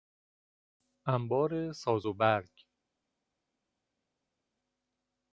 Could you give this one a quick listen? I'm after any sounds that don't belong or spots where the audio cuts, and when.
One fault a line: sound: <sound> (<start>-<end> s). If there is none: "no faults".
no faults